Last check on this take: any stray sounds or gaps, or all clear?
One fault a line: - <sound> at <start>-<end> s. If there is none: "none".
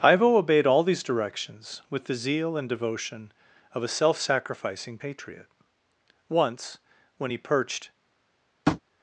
- tap at 8.7-8.8 s